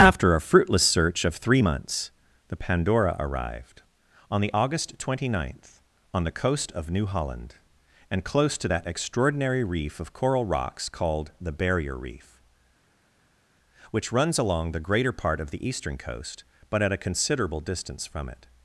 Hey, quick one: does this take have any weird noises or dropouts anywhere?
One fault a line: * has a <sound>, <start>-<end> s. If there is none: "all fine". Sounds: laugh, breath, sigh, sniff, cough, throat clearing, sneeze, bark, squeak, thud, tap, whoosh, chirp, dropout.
all fine